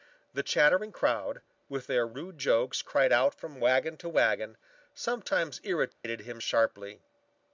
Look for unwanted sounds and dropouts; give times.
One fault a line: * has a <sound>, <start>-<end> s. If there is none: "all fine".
* has a dropout, 5.9-6.0 s